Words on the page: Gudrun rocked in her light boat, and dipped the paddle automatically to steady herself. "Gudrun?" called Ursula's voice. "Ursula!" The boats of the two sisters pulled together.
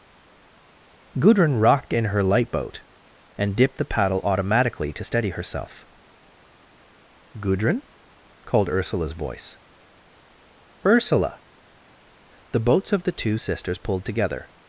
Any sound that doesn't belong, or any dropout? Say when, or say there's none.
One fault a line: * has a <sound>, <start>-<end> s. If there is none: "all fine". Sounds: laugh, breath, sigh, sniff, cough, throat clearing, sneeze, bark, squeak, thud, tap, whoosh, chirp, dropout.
all fine